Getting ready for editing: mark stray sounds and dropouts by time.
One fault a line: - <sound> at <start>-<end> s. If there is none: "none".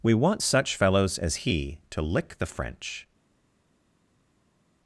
none